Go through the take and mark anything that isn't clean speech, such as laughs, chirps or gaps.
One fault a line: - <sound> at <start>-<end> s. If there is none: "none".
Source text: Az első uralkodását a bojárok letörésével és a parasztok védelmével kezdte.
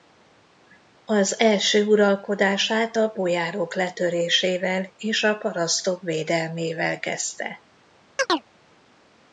- chirp at 8.2-8.5 s